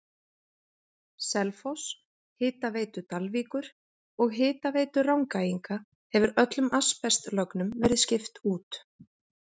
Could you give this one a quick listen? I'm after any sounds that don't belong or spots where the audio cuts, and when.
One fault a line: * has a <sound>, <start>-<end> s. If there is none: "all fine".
all fine